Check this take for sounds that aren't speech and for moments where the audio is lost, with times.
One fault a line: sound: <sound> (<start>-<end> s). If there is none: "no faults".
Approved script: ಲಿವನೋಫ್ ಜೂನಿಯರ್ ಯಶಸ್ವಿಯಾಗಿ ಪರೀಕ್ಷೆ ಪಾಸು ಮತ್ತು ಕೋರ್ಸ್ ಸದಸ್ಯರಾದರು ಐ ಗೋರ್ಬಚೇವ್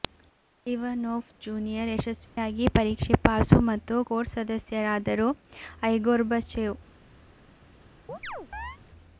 sound: dropout (2.3-2.4 s)
sound: chirp (8.1-8.8 s)